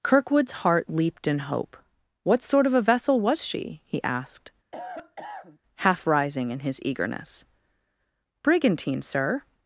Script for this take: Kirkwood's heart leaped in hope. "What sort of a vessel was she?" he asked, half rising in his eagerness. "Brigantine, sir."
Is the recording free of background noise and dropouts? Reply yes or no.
no